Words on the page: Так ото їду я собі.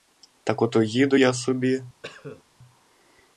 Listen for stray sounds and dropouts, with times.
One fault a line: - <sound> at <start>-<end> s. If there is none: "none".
- cough at 2.0-2.4 s